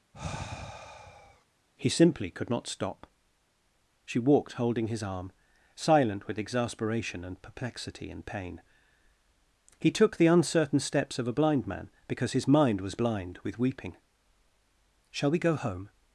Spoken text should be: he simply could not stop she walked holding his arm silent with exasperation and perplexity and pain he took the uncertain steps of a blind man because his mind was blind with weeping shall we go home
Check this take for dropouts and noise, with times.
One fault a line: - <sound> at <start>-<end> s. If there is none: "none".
- sigh at 0.1-1.5 s